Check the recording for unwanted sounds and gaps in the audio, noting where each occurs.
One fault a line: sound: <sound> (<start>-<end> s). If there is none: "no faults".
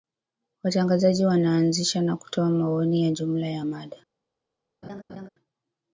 sound: laugh (4.8-5.3 s)